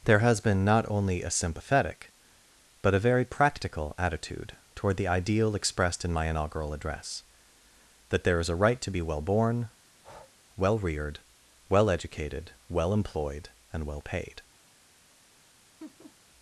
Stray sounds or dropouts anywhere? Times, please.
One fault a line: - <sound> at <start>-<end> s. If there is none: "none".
- breath at 9.9-10.4 s
- laugh at 15.8-16.2 s